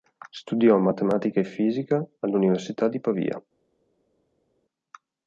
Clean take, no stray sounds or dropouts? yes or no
yes